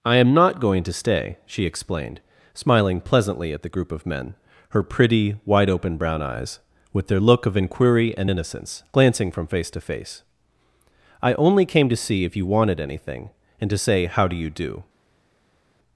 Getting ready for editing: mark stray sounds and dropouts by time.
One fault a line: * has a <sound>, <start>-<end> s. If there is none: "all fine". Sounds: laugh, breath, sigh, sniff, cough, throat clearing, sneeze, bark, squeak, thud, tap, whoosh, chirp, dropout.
all fine